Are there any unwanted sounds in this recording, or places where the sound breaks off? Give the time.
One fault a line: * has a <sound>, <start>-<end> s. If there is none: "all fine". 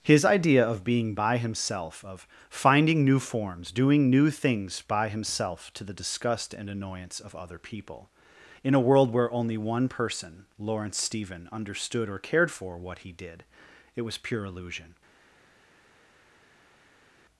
all fine